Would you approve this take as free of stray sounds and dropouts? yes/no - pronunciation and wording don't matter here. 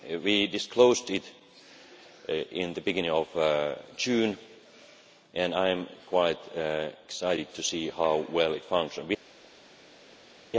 yes